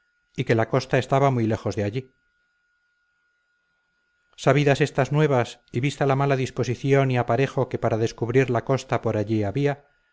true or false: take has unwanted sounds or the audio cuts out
false